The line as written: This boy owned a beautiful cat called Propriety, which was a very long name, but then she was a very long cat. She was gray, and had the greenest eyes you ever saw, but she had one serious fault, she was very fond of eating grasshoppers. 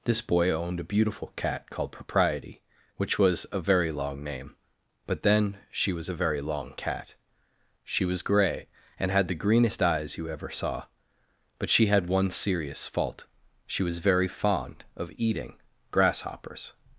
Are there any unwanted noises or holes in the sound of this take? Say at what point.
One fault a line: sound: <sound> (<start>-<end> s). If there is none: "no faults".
no faults